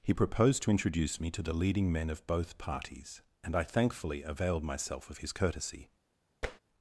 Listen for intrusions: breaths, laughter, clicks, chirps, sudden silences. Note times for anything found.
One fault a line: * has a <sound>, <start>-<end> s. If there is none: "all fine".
* has a tap, 6.4-6.6 s